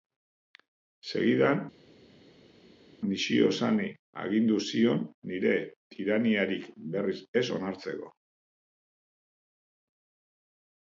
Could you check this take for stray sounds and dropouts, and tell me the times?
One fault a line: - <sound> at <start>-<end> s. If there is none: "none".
none